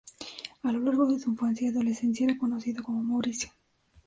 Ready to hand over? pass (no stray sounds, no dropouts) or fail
pass